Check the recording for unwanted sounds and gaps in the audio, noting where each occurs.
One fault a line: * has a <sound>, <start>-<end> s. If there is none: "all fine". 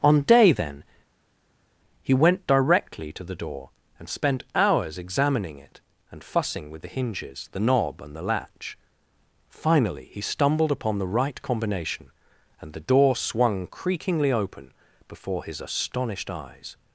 all fine